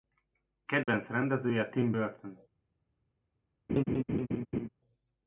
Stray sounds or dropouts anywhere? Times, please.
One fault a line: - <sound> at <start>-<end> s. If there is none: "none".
- dropout at 0.8-0.9 s
- laugh at 3.7-4.7 s